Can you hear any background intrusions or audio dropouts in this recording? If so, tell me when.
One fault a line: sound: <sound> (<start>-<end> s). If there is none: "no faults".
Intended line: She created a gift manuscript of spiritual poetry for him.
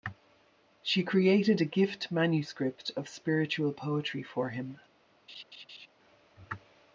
sound: laugh (5.3-5.9 s)